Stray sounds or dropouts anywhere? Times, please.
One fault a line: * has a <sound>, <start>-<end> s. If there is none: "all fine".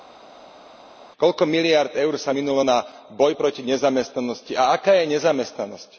all fine